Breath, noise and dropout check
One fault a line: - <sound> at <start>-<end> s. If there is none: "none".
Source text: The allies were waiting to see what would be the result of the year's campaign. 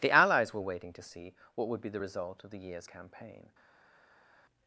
none